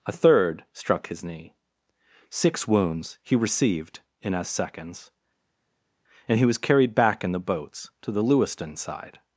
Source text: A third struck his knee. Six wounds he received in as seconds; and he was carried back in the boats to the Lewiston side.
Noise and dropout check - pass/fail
pass